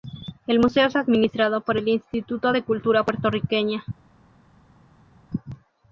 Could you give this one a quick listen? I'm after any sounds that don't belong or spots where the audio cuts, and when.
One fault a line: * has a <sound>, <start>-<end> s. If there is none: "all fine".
all fine